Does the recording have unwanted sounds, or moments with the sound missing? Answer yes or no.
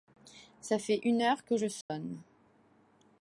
yes